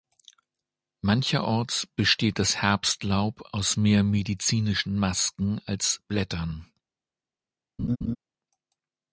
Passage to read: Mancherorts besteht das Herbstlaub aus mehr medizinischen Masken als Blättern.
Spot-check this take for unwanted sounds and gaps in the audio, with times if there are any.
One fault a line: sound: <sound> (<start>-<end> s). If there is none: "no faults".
sound: laugh (7.8-8.2 s)